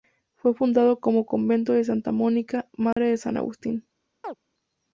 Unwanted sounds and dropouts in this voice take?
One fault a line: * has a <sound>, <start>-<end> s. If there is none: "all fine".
* has a dropout, 2.9-3.0 s
* has a chirp, 4.2-4.4 s